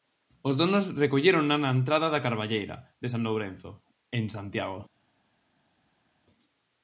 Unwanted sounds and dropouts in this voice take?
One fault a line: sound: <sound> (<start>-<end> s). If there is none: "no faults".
no faults